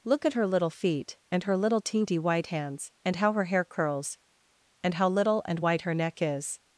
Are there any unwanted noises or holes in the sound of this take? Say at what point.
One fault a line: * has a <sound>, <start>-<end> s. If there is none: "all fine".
all fine